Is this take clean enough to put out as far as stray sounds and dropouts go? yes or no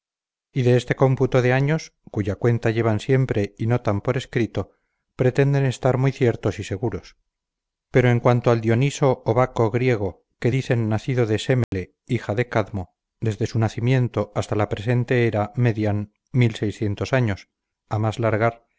no